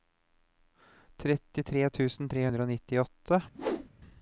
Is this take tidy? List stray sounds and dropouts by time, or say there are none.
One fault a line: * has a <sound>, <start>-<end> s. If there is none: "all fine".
* has a whoosh, 3.5-3.9 s